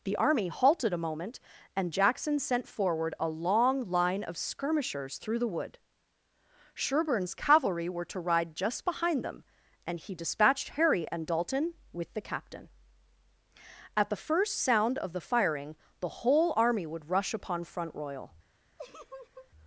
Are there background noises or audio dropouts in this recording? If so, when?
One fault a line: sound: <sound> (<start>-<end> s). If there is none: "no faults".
sound: laugh (18.8-19.5 s)